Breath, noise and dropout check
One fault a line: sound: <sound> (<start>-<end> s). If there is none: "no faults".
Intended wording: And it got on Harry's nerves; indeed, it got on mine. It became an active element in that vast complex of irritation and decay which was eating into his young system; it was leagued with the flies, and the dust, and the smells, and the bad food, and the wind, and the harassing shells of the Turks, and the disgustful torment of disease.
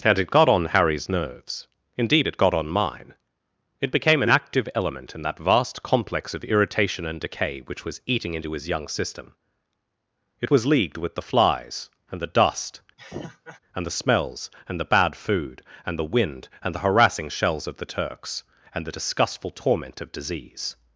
sound: laugh (13.0-13.6 s)